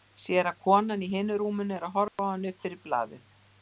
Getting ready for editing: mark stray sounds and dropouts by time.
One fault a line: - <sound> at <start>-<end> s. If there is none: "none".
- dropout at 2.1-2.2 s